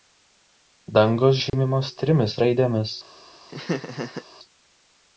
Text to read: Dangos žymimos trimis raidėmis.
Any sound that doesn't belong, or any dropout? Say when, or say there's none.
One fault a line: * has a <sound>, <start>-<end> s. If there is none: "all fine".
* has a dropout, 1.5-1.5 s
* has a laugh, 3.5-4.3 s